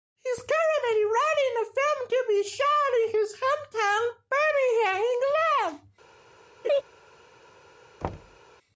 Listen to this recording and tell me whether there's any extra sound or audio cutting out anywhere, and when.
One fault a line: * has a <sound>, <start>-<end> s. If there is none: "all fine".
* has a laugh, 6.6-6.8 s
* has a thud, 8.0-8.4 s